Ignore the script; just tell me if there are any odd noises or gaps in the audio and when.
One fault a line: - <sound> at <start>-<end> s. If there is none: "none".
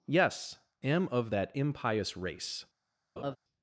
- laugh at 3.2-3.4 s